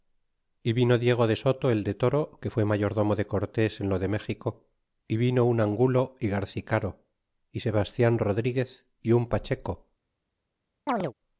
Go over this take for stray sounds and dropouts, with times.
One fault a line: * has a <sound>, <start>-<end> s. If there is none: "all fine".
* has a chirp, 10.9-11.1 s